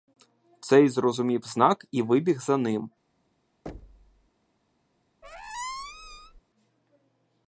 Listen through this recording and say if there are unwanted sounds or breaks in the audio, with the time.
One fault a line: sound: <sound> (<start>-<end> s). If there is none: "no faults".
sound: thud (3.7-4.3 s)
sound: squeak (5.2-6.4 s)